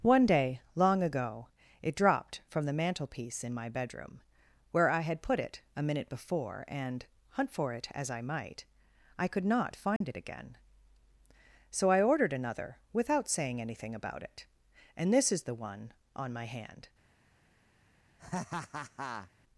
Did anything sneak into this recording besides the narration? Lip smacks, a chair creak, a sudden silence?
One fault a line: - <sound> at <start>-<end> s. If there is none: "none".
- dropout at 10.0-10.0 s
- laugh at 18.2-19.3 s